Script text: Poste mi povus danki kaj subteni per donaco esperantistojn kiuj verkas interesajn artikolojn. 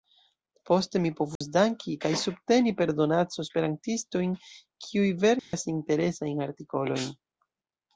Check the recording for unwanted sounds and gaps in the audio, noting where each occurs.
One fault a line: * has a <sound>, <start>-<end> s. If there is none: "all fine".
* has a dropout, 1.4-1.4 s
* has a dropout, 5.4-5.5 s